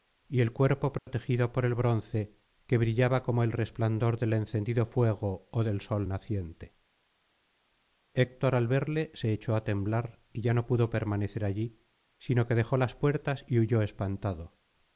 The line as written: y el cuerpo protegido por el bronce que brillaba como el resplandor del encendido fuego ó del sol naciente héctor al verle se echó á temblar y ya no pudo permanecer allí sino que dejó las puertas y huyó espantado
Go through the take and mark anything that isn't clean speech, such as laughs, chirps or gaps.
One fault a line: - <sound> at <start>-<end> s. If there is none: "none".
- dropout at 1.0-1.1 s